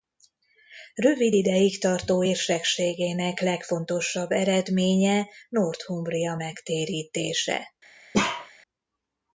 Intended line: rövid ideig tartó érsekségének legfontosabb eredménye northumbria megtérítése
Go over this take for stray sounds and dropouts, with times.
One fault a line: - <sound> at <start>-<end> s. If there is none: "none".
- bark at 8.1-8.5 s